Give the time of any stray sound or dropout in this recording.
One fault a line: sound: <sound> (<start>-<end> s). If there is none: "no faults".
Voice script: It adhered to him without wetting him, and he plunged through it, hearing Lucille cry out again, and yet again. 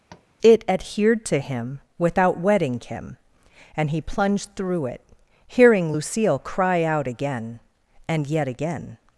sound: tap (0.1-0.3 s)